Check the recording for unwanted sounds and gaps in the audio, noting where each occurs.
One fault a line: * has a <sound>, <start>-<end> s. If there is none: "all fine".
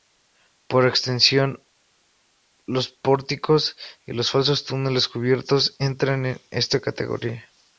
all fine